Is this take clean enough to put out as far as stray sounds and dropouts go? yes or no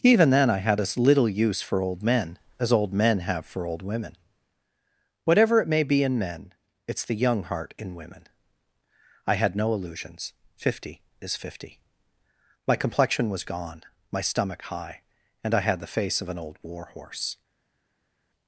yes